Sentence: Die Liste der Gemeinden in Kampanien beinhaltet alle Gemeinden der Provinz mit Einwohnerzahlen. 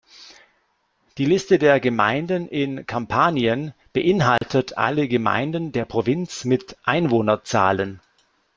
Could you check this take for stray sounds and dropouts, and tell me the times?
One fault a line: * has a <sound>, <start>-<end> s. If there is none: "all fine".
* has a dropout, 4.4-4.4 s